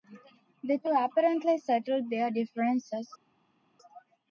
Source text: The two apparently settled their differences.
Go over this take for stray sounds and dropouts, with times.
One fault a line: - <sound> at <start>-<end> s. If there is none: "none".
none